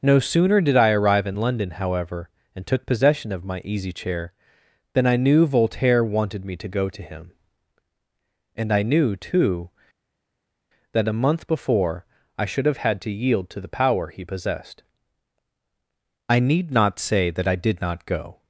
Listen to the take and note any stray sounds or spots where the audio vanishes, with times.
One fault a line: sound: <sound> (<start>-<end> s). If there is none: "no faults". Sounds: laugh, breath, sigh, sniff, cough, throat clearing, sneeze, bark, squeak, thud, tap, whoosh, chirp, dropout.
no faults